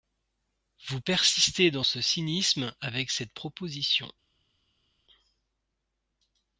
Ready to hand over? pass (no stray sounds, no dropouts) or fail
pass